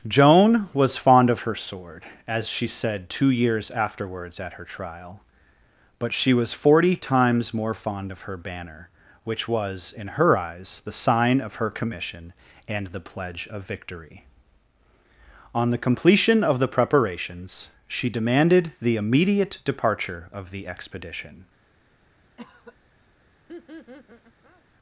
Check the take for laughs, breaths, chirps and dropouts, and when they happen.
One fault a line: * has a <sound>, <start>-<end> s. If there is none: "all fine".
* has a cough, 22.4-22.8 s
* has a laugh, 23.5-24.6 s